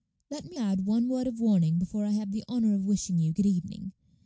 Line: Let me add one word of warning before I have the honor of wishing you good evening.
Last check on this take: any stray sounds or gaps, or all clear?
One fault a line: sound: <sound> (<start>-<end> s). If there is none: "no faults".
no faults